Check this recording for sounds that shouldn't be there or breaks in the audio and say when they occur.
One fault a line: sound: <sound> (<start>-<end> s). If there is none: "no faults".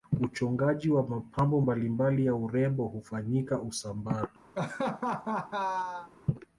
sound: laugh (4.5-6.1 s)